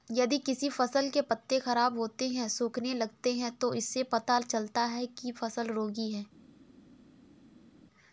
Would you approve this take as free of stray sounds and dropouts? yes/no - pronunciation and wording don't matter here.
yes